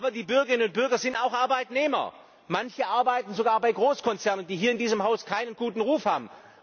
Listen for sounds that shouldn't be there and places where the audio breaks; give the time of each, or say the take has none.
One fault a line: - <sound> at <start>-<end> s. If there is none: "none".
none